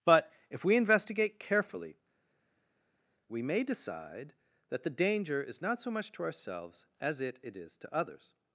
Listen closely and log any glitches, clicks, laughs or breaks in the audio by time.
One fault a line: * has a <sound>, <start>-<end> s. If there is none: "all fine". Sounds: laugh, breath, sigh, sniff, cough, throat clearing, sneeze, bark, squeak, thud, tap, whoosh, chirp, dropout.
all fine